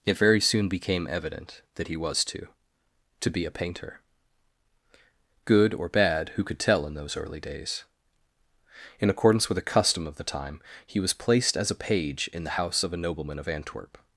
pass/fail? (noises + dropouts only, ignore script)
pass